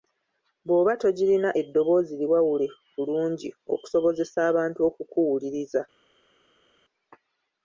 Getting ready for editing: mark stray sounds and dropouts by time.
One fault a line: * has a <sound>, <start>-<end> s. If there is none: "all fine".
all fine